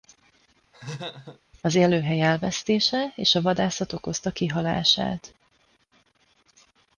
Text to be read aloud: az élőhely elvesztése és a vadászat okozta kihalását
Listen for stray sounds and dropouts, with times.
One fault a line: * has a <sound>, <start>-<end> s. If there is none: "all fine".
* has a laugh, 0.7-1.4 s